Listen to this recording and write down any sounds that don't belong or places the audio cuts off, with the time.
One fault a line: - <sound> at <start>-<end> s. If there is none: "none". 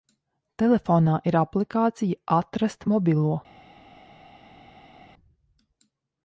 none